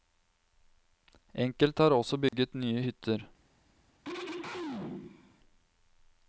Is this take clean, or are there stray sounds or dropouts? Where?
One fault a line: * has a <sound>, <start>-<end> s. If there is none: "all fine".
* has a dropout, 2.3-2.3 s
* has a throat clearing, 4.0-5.4 s